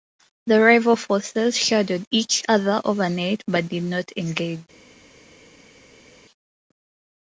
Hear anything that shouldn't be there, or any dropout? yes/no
no